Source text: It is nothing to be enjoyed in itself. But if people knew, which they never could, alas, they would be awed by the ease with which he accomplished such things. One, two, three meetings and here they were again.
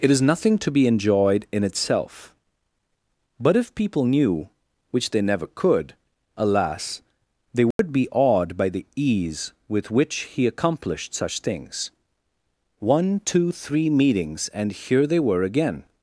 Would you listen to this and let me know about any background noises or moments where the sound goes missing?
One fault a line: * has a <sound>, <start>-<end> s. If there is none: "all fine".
* has a dropout, 7.7-7.8 s